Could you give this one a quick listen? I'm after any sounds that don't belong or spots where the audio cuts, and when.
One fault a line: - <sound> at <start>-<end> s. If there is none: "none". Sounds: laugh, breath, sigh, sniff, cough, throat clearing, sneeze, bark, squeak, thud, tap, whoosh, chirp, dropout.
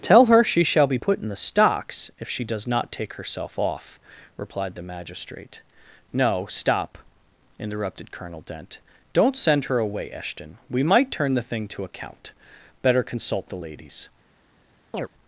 - chirp at 14.9-15.1 s